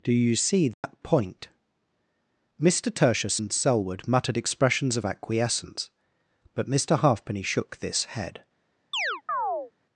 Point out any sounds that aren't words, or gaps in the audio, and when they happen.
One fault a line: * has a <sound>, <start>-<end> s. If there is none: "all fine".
* has a dropout, 0.7-0.8 s
* has a chirp, 8.9-9.7 s